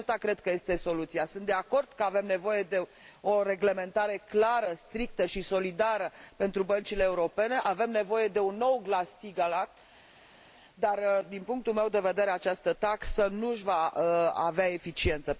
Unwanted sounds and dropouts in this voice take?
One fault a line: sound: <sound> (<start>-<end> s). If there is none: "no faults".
no faults